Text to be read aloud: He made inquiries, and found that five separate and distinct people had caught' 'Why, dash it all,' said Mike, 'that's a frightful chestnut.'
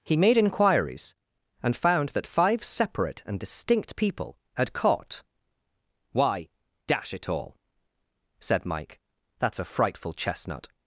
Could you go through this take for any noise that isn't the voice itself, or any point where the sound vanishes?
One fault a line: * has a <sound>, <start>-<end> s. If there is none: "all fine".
all fine